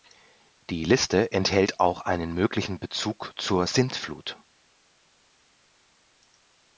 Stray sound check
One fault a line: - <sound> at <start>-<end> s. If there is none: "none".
none